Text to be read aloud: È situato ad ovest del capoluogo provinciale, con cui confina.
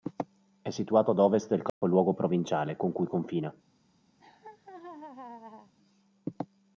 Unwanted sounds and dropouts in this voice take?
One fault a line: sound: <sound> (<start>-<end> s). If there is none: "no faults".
sound: dropout (1.7-1.8 s)
sound: laugh (4.2-5.7 s)